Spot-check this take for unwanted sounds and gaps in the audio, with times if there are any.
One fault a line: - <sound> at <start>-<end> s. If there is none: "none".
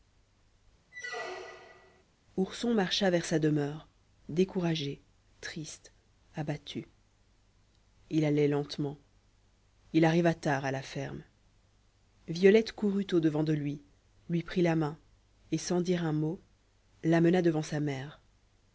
- squeak at 0.9-2.0 s